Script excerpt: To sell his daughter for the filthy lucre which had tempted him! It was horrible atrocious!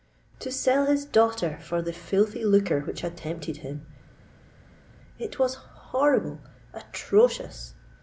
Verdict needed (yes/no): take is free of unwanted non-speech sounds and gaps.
yes